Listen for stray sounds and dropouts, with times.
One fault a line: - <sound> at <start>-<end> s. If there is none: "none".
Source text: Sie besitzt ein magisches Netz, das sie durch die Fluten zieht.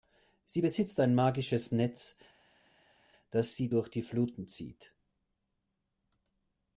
none